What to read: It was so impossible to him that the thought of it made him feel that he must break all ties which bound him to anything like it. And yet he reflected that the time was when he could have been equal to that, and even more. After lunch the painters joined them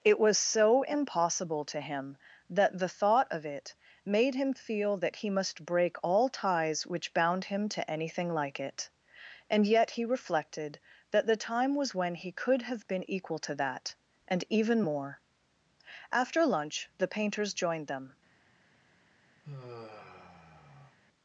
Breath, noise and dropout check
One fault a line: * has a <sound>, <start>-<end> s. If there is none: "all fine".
* has a sigh, 19.4-21.0 s